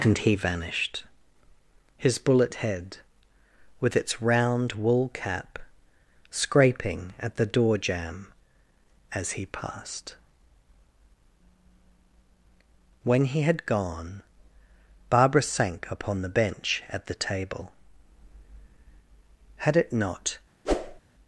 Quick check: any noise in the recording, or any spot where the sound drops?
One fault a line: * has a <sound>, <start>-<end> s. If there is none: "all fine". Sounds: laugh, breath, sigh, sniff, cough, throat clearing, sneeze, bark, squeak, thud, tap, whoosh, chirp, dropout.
* has a whoosh, 20.6-21.0 s